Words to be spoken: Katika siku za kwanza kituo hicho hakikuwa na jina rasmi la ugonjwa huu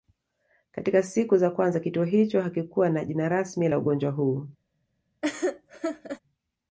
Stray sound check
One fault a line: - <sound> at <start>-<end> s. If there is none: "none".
- laugh at 5.2-6.2 s